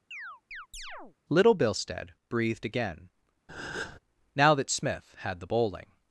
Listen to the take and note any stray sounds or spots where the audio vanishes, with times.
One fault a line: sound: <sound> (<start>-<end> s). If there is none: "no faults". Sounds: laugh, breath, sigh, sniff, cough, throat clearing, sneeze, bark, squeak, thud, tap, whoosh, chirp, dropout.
sound: chirp (0.1-1.2 s)
sound: breath (3.5-4.0 s)